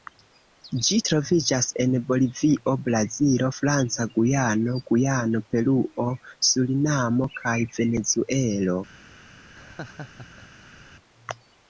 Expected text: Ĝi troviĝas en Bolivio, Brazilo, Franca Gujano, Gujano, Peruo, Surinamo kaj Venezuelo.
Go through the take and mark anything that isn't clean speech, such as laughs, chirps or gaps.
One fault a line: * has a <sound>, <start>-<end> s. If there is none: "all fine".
* has a laugh, 9.5-10.9 s